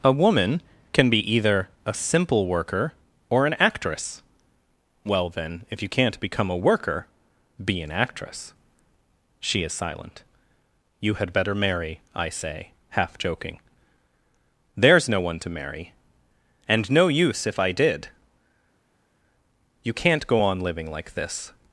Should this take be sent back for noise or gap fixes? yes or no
no